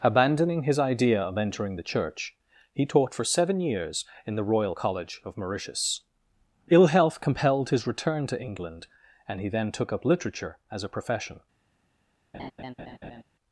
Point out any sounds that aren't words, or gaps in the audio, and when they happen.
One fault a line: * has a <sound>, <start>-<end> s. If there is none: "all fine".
* has a laugh, 12.3-13.2 s